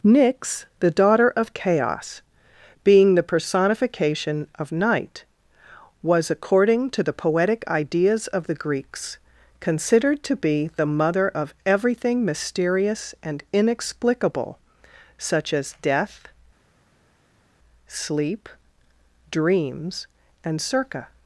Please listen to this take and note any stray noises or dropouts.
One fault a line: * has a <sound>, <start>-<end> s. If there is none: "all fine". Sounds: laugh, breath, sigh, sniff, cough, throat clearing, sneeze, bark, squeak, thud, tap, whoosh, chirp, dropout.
all fine